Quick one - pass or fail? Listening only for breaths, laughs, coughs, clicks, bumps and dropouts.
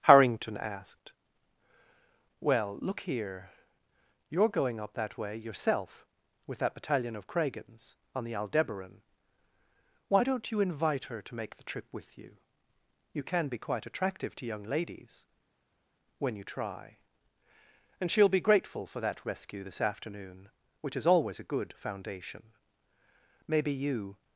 pass